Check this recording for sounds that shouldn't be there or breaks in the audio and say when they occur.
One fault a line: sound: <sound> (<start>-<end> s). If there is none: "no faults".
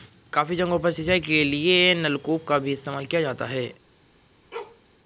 sound: bark (4.5-4.8 s)